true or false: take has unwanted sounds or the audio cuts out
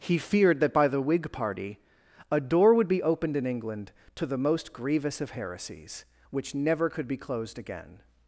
false